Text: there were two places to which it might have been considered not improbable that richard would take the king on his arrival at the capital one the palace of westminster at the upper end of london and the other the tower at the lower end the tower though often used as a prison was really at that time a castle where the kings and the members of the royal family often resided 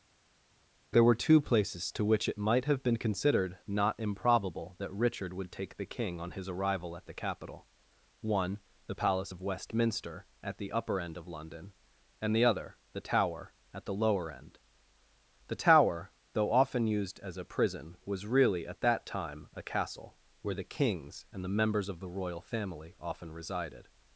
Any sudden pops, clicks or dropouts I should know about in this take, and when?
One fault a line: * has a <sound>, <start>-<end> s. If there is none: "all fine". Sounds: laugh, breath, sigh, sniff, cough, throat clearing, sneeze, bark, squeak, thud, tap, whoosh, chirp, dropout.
all fine